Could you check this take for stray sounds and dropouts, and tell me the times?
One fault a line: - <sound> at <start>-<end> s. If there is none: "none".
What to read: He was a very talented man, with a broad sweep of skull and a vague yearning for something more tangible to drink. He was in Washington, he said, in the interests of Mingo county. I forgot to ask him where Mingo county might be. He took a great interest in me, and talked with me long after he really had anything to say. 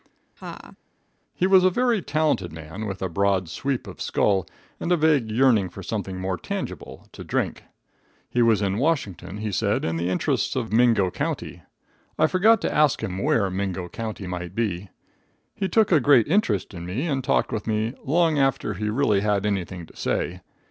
- laugh at 0.4-0.8 s